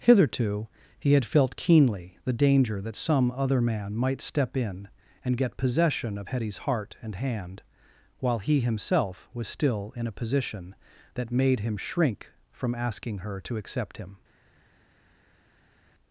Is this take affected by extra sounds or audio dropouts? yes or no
no